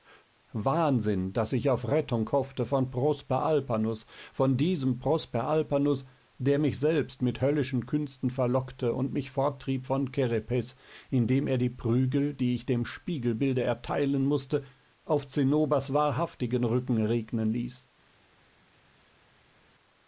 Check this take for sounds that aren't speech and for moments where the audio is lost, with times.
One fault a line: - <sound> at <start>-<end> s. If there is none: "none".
none